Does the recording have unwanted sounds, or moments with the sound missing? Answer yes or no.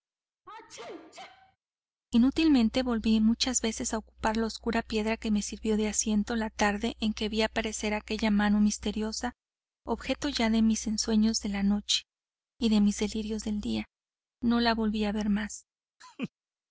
yes